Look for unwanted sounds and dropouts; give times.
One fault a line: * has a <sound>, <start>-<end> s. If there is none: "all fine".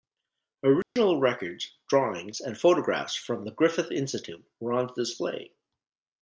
* has a dropout, 0.8-1.0 s